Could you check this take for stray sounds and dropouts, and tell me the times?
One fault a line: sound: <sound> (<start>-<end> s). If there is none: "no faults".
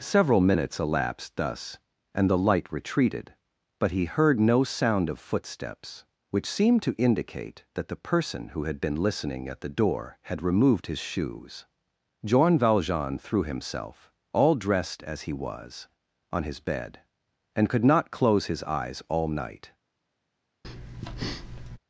sound: breath (20.6-21.8 s)